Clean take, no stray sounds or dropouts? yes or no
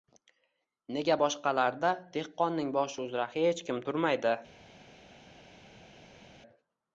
yes